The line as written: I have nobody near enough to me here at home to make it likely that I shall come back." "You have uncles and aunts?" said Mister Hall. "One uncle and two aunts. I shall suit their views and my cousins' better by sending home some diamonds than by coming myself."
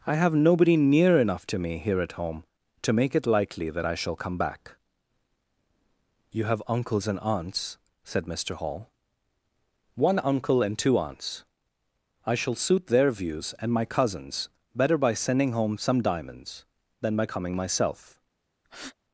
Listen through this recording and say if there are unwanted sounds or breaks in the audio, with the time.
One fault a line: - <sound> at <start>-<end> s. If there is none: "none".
- breath at 18.6-19.0 s